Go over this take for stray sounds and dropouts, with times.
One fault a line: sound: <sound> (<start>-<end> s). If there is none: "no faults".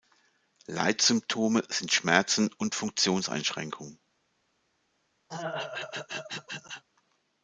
sound: throat clearing (5.3-6.8 s)